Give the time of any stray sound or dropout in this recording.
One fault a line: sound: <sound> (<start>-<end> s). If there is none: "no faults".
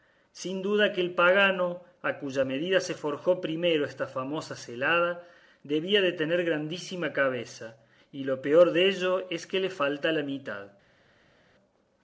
no faults